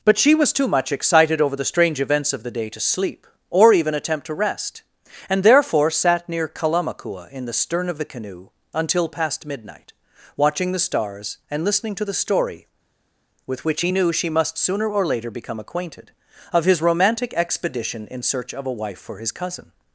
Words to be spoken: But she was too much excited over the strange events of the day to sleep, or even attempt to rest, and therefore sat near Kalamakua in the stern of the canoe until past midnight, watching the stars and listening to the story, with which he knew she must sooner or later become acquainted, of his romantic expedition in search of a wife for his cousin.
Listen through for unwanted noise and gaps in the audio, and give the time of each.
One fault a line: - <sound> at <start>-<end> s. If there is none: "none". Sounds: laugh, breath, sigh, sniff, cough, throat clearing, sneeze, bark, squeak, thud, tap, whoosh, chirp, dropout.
none